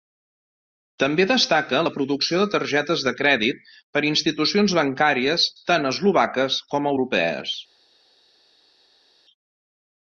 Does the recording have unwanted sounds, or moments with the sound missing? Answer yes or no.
no